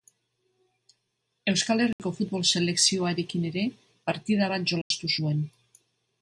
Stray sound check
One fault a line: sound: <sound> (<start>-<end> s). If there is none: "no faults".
sound: dropout (1.9-2.0 s)
sound: dropout (4.8-4.9 s)